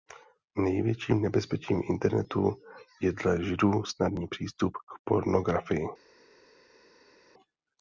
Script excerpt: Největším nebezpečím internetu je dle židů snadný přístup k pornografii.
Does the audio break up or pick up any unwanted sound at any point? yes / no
no